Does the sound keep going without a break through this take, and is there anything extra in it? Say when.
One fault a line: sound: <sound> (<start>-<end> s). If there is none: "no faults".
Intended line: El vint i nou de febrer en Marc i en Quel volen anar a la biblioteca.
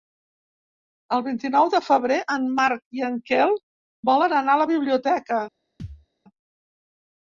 sound: thud (5.8-6.1 s)